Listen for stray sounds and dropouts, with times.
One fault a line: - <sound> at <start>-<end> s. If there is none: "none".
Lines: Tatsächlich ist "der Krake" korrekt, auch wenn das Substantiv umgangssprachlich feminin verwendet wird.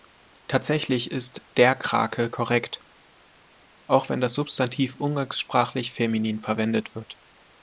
none